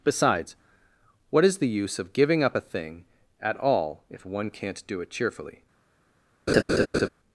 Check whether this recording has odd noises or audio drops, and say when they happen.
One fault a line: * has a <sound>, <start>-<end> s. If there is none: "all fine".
* has a laugh, 6.5-7.1 s